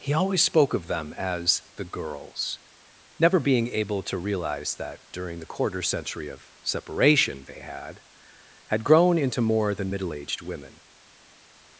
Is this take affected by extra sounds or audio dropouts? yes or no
no